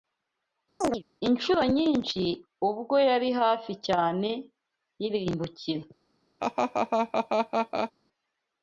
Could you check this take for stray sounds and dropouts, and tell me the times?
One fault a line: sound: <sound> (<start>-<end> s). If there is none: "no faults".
sound: chirp (0.8-1.0 s)
sound: laugh (6.4-7.9 s)